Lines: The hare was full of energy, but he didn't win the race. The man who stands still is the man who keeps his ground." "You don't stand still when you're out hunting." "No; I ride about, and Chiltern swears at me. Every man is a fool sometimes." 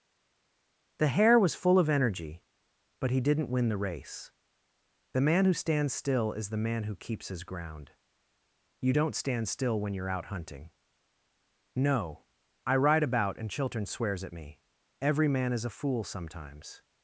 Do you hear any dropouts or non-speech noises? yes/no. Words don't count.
no